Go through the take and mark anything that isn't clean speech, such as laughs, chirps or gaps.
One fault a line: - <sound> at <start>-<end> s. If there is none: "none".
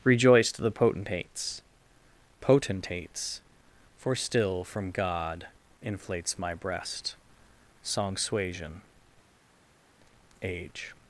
none